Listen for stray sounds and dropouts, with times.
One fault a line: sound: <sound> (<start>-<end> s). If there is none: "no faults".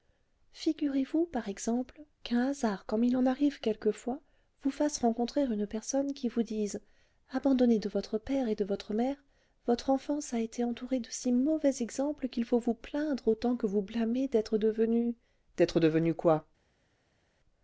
no faults